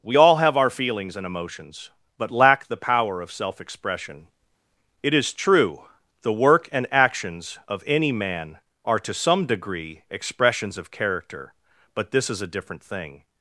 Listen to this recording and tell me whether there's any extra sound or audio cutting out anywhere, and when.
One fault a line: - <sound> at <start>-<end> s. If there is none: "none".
none